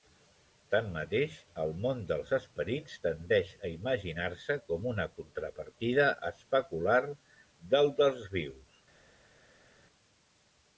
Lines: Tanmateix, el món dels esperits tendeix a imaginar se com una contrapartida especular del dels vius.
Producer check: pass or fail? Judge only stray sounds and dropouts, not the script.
pass